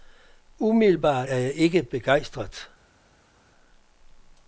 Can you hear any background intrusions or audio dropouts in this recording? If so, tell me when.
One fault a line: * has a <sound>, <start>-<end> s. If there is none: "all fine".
all fine